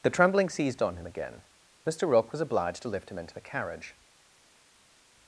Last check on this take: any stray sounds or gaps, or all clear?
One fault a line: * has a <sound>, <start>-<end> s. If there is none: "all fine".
all fine